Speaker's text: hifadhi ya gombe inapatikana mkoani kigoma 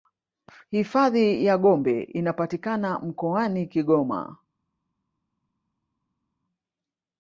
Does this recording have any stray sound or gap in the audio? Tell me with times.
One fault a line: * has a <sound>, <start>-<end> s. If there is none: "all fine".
all fine